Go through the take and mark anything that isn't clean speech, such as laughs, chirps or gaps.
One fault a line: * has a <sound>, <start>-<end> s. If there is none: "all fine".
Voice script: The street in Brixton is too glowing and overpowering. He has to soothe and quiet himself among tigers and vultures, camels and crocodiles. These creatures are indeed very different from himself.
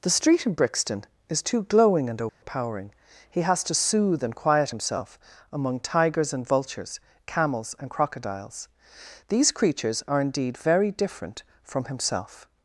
* has a dropout, 2.3-2.4 s